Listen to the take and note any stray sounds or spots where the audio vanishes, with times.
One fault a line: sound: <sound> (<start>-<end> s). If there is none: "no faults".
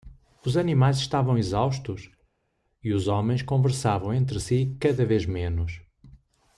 no faults